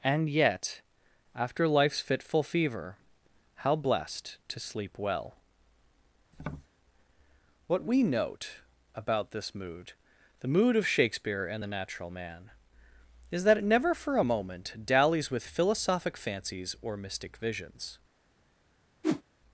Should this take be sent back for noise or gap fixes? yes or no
yes